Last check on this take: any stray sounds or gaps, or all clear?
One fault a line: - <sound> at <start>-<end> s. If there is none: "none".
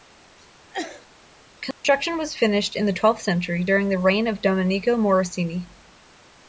- sneeze at 0.7-1.1 s
- dropout at 1.7-1.8 s